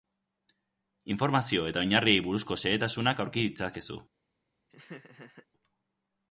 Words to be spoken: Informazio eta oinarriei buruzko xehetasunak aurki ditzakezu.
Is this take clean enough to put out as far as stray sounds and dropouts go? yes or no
no